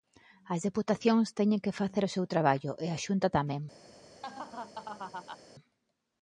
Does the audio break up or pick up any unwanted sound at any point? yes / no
yes